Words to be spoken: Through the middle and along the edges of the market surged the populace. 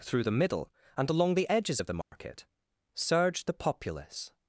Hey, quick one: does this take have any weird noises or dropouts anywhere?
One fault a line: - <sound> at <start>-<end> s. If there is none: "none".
- dropout at 2.0-2.1 s